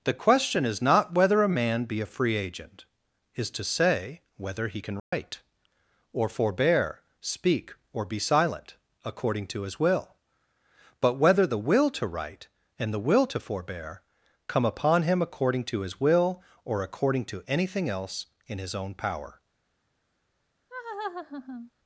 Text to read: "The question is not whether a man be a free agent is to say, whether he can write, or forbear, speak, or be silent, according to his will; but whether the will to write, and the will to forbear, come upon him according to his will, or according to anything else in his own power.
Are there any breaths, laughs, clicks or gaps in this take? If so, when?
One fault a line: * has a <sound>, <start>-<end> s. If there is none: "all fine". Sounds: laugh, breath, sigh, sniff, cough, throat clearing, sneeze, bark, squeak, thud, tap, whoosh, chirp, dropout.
* has a dropout, 5.0-5.1 s
* has a laugh, 20.7-21.7 s